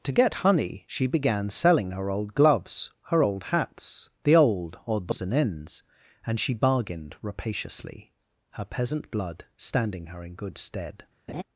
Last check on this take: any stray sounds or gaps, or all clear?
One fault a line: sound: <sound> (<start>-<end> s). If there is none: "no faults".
sound: laugh (11.3-11.4 s)